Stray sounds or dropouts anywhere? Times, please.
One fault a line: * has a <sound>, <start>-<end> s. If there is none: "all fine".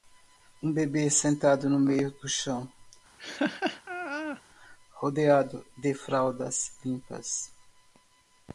* has a laugh, 3.2-4.4 s